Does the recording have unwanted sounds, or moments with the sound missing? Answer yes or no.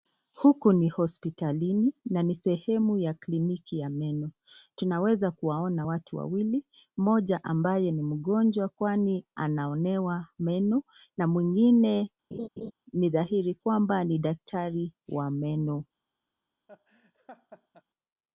yes